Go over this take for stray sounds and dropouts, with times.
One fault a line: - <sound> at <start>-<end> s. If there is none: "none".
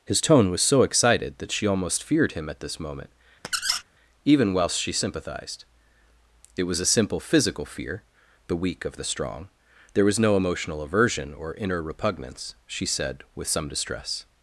- squeak at 3.4-3.8 s